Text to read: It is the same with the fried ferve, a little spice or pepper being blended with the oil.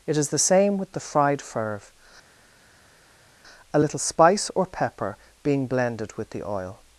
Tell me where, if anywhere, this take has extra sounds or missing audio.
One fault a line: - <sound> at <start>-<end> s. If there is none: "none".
none